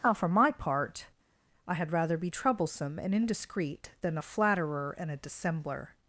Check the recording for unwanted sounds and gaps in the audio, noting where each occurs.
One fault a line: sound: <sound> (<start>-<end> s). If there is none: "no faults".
no faults